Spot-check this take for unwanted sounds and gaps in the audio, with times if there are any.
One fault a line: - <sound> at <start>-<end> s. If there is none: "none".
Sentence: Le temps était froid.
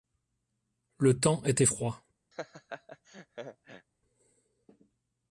- laugh at 2.3-3.9 s